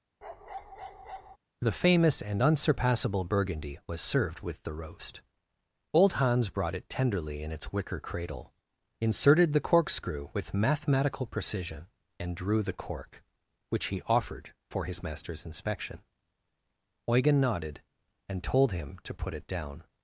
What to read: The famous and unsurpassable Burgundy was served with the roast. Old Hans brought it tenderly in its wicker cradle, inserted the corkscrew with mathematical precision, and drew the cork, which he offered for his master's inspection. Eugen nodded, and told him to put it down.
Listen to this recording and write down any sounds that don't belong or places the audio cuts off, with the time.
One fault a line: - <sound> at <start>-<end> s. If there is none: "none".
- bark at 0.2-1.4 s